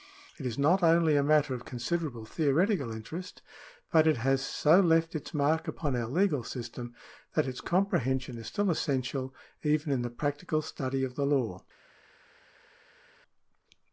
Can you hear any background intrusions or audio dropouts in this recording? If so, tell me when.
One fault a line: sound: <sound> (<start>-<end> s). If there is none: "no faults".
no faults